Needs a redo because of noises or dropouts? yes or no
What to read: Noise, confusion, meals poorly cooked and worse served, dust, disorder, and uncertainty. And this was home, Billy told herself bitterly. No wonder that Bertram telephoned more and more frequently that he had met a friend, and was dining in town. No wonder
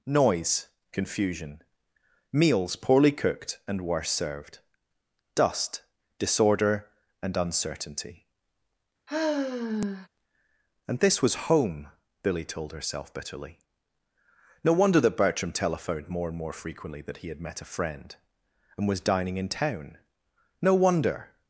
yes